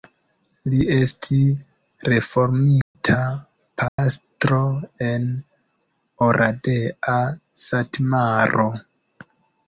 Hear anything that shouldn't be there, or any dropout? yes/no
yes